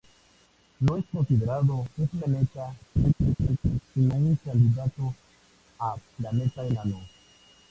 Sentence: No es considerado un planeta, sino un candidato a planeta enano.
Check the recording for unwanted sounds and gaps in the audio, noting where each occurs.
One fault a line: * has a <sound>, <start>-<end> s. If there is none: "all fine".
* has a laugh, 3.0-3.8 s